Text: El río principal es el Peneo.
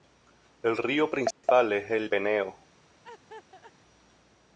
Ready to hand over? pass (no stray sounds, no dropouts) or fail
fail